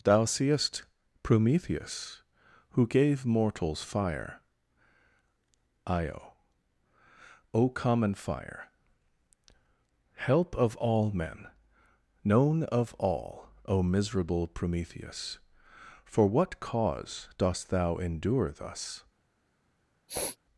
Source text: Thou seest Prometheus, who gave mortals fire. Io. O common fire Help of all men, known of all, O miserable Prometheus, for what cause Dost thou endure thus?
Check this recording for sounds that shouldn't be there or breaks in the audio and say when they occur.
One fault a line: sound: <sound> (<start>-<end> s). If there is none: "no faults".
sound: sniff (20.1-20.4 s)